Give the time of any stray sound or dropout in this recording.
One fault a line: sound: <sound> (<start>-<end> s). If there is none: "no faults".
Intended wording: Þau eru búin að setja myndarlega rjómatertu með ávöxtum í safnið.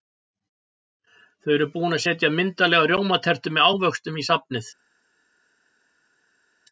no faults